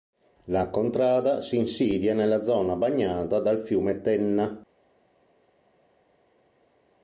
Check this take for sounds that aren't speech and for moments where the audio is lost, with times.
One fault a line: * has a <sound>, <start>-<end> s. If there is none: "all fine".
all fine